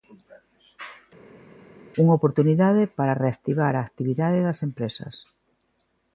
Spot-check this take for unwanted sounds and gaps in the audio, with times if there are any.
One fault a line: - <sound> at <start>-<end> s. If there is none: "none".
none